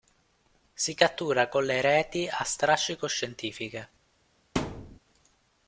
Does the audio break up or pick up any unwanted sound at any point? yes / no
yes